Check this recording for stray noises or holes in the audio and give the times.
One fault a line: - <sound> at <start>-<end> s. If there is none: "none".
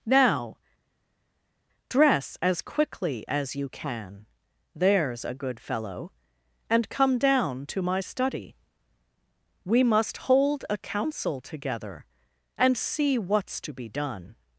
none